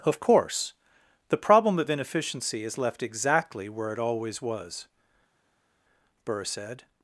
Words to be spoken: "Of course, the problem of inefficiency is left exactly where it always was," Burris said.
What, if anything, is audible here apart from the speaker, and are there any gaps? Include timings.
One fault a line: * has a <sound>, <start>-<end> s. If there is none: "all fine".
all fine